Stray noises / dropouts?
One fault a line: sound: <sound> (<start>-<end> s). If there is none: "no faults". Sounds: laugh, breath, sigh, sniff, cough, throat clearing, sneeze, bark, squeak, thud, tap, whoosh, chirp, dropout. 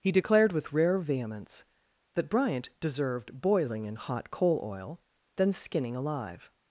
no faults